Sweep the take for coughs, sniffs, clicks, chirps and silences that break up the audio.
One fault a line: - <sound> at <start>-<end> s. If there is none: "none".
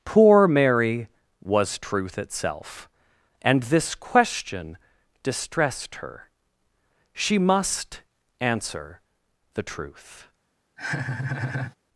- laugh at 10.8-11.8 s